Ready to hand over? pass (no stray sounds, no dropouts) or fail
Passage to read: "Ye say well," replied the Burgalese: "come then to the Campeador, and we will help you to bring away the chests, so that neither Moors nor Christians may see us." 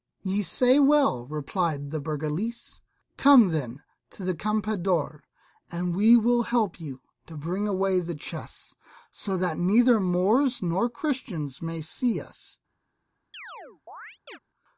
fail